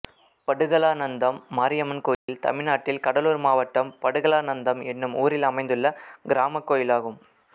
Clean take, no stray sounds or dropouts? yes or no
no